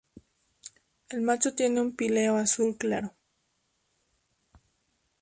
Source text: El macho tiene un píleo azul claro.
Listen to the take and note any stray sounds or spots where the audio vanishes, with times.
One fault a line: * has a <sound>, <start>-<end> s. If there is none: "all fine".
all fine